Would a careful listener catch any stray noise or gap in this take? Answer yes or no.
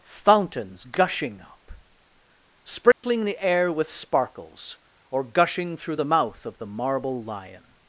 yes